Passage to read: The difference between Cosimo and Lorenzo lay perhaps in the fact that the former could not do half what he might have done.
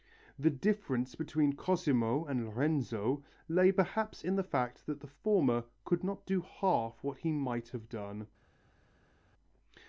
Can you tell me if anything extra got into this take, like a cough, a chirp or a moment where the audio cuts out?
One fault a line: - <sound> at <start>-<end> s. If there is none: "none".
none